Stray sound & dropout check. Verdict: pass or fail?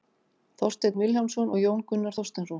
pass